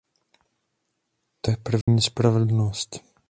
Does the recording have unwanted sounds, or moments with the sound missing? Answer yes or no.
yes